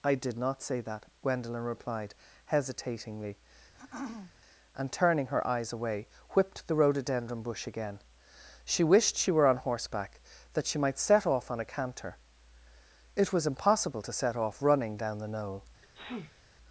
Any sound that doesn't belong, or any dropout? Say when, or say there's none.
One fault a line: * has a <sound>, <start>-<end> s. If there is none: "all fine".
* has a throat clearing, 3.7-4.3 s
* has a sneeze, 15.8-16.4 s